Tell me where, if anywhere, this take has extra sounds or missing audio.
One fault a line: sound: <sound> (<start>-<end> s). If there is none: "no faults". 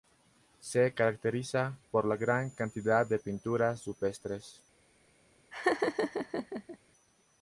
sound: laugh (5.5-6.8 s)